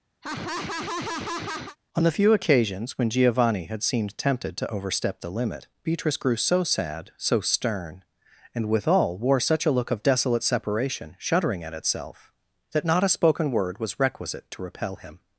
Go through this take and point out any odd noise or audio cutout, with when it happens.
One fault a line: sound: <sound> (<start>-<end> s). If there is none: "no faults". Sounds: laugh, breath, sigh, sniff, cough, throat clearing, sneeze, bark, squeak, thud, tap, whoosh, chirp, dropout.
sound: laugh (0.2-1.8 s)